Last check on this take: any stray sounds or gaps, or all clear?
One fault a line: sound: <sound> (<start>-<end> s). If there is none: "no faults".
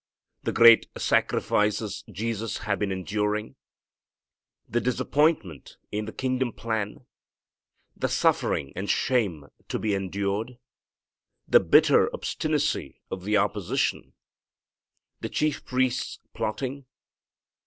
no faults